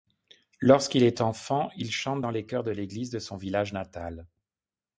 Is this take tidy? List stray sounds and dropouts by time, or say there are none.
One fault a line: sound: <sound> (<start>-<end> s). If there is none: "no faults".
no faults